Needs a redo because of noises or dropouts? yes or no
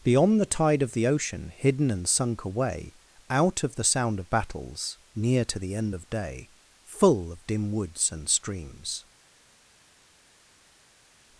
no